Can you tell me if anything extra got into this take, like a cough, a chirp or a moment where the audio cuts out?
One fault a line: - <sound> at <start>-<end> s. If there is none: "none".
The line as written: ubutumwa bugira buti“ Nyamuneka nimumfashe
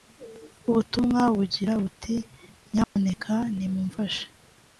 - dropout at 2.8-3.0 s